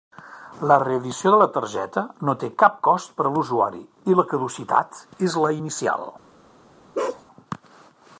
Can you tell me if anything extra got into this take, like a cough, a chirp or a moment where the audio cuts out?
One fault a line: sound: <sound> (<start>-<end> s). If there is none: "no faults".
sound: bark (6.9-7.2 s)